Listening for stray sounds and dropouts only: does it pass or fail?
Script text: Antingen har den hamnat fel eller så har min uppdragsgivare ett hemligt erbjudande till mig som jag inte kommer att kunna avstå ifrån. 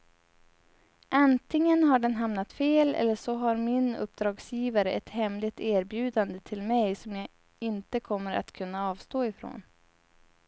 pass